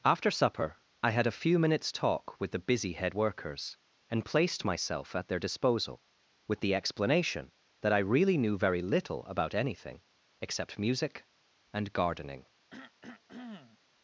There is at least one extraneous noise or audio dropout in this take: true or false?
true